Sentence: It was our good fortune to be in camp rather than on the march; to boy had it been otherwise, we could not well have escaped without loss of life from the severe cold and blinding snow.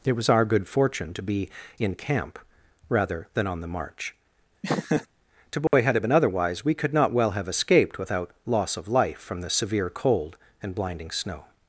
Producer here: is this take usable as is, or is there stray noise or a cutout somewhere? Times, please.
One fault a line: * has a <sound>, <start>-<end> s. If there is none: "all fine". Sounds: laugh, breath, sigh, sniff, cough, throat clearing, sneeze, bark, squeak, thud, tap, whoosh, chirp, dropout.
* has a laugh, 4.6-5.1 s
* has a dropout, 5.7-5.7 s